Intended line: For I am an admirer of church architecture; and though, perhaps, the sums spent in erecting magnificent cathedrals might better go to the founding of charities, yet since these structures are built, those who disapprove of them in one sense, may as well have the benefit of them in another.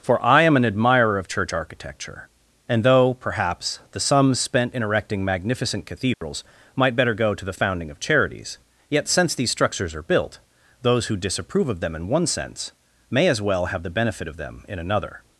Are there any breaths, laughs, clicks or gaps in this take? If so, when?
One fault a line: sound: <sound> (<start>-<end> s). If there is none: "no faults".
sound: dropout (6.1-6.2 s)